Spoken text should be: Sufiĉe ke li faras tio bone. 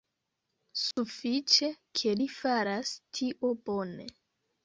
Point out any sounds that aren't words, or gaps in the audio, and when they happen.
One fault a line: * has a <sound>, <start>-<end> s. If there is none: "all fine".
* has a dropout, 0.9-1.0 s